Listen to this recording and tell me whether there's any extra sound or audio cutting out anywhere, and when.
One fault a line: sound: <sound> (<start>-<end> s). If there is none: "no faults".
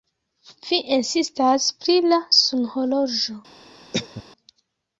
sound: cough (3.9-4.2 s)